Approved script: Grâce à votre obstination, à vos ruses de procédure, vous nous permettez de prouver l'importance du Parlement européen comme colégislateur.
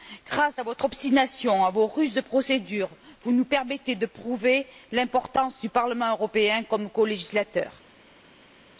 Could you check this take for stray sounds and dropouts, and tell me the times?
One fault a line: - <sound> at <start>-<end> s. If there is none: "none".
none